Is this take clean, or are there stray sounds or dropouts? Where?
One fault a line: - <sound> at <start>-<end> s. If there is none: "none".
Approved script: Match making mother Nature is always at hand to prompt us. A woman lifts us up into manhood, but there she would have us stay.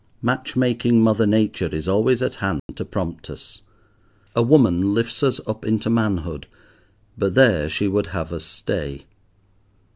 - dropout at 2.6-2.7 s